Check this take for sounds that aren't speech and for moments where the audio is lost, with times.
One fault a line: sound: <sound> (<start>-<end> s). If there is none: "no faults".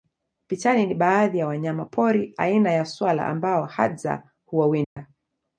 sound: dropout (4.8-5.0 s)